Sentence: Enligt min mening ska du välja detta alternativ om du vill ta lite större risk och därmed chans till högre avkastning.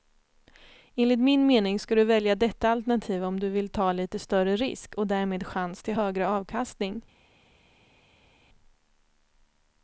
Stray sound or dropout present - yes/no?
no